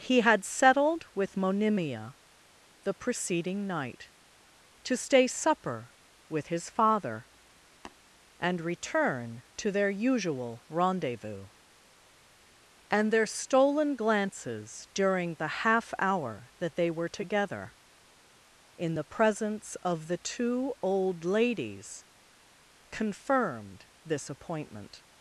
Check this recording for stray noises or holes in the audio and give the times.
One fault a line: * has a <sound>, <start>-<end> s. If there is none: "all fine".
* has a tap, 7.8-8.0 s